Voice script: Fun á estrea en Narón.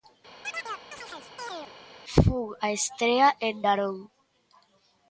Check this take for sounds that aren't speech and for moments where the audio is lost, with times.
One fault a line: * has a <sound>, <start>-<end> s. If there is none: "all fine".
* has a chirp, 0.4-1.7 s